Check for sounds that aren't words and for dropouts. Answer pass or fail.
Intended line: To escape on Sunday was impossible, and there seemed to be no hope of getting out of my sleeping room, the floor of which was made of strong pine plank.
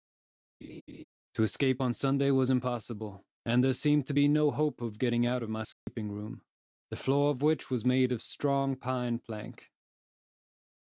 fail